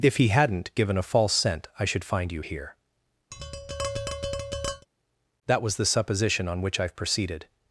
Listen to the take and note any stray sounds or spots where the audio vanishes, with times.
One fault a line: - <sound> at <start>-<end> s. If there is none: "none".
- tap at 3.3-4.9 s